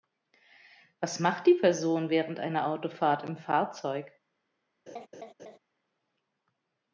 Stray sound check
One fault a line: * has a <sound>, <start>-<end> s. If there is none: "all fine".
* has a laugh, 4.9-5.6 s